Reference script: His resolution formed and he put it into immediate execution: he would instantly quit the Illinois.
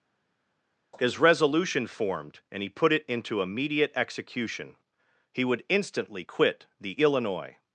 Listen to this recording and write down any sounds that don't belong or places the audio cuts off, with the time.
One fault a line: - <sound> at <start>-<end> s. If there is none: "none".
none